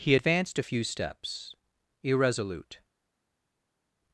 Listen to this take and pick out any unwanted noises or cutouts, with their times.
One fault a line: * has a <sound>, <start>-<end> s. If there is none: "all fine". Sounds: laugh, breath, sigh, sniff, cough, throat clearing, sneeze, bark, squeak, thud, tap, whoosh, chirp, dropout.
all fine